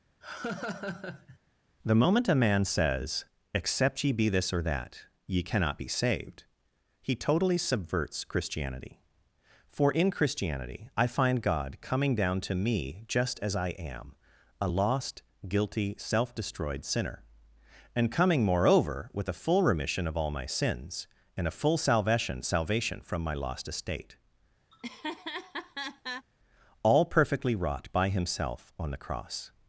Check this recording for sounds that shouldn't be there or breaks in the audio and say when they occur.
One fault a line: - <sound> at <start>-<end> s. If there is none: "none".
- laugh at 0.2-1.4 s
- laugh at 24.7-26.3 s